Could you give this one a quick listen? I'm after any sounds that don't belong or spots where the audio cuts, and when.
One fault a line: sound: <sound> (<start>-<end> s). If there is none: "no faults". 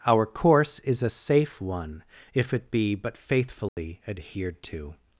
sound: dropout (3.7-3.8 s)